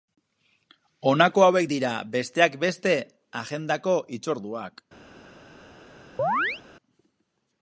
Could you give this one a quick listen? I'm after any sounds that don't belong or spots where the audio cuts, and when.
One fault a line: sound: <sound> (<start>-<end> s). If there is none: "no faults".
sound: chirp (6.2-6.6 s)